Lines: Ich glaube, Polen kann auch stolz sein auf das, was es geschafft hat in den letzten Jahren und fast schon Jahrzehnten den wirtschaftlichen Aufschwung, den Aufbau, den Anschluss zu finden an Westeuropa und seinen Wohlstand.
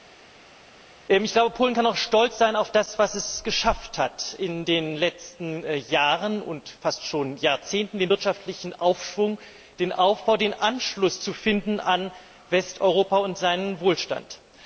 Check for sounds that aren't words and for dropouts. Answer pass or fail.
pass